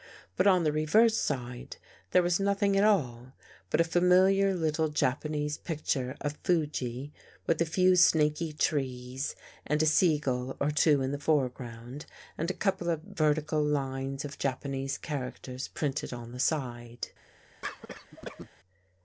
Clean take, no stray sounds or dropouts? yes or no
no